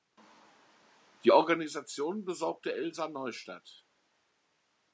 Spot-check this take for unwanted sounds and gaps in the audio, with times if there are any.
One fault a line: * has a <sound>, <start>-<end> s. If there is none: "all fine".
all fine